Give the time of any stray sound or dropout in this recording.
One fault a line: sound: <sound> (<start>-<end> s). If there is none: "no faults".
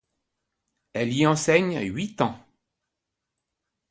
no faults